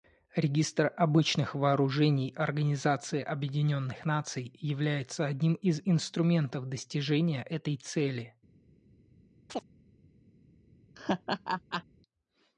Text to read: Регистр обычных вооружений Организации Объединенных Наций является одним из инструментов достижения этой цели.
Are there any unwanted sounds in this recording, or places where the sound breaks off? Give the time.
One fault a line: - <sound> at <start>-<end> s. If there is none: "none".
- chirp at 9.5-9.6 s
- laugh at 10.9-11.8 s